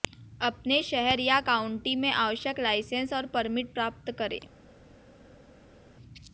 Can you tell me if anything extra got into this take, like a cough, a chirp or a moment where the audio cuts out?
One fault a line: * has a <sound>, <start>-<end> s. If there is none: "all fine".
all fine